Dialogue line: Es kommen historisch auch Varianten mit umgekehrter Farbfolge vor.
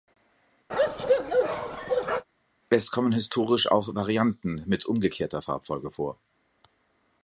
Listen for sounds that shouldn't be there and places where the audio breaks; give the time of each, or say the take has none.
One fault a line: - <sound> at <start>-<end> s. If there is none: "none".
- bark at 0.7-2.2 s